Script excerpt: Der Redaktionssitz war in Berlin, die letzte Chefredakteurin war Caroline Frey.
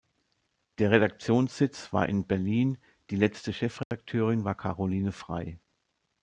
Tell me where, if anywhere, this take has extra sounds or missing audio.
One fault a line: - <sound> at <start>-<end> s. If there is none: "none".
- dropout at 3.8-3.9 s